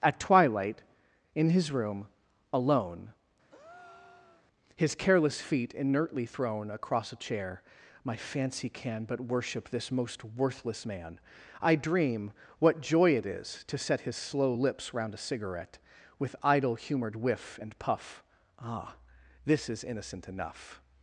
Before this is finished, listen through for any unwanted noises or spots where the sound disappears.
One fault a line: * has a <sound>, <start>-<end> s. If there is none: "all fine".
* has a breath, 3.5-4.5 s